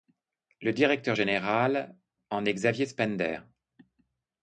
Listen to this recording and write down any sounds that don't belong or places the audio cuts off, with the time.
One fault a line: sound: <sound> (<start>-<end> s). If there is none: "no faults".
no faults